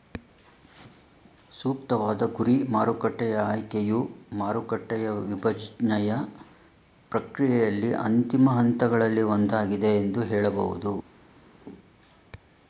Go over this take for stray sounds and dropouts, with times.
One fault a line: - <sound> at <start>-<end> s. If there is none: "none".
none